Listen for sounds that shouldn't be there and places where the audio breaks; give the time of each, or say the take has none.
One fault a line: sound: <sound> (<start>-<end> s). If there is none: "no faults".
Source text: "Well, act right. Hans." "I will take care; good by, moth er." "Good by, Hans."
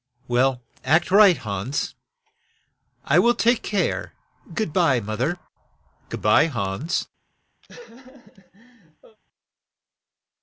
sound: laugh (7.6-9.2 s)